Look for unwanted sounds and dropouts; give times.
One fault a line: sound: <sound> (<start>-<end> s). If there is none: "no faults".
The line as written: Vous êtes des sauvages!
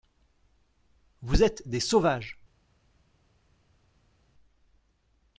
no faults